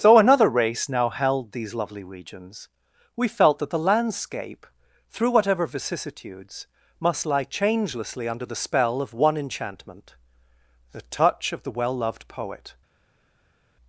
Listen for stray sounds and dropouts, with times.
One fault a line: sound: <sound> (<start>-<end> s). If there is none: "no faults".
no faults